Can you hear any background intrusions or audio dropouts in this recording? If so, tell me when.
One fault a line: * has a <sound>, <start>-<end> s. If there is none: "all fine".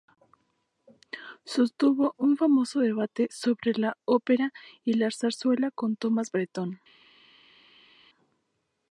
all fine